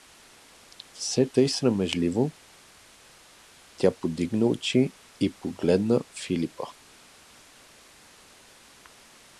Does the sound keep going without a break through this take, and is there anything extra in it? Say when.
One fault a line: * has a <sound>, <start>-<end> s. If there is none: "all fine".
all fine